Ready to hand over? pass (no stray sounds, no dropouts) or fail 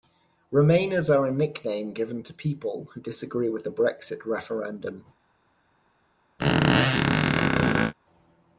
fail